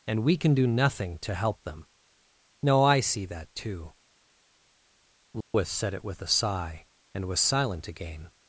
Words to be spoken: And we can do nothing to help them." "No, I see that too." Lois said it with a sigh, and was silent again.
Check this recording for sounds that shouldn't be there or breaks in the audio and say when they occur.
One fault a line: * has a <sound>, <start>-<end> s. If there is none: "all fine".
* has a dropout, 5.4-5.5 s